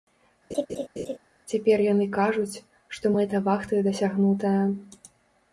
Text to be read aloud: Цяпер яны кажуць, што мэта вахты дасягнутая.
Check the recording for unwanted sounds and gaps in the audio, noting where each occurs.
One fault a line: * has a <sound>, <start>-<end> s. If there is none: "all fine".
* has a laugh, 0.5-1.2 s